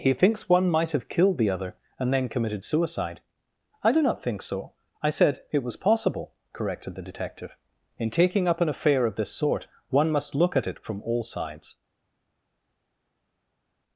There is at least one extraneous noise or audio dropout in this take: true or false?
false